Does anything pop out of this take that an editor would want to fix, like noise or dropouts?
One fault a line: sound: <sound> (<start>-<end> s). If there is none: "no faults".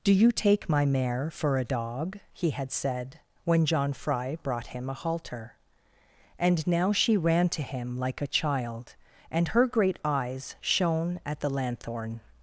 no faults